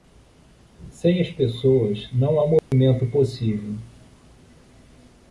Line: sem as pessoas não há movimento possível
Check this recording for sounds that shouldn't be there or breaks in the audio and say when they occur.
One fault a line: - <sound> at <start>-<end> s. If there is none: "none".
- dropout at 2.6-2.7 s